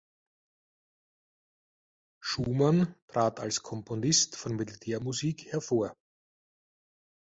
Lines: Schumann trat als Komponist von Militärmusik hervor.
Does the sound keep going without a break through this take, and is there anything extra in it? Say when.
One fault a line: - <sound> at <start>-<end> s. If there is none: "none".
none